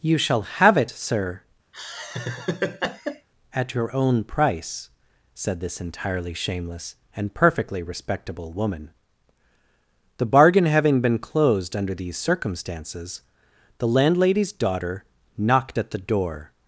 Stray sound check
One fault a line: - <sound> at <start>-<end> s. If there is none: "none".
- laugh at 1.7-3.3 s